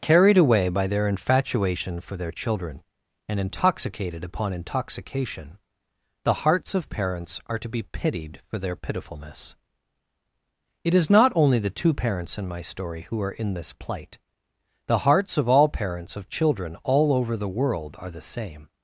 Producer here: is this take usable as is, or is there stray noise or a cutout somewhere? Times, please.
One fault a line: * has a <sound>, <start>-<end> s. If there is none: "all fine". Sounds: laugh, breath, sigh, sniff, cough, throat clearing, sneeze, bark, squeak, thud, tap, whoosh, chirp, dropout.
all fine